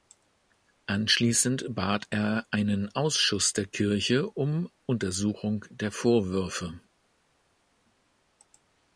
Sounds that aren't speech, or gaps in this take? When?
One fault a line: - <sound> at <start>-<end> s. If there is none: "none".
none